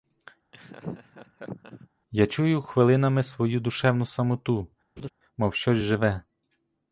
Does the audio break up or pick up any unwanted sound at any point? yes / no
yes